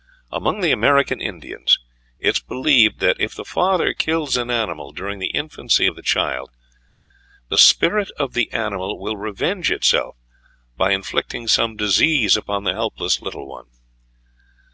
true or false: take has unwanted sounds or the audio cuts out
false